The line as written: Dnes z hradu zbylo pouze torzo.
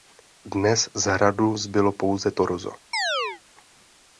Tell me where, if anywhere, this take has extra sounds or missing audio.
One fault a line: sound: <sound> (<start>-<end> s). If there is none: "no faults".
sound: chirp (2.9-3.4 s)